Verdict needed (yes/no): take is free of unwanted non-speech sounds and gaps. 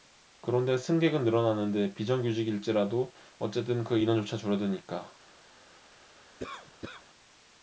no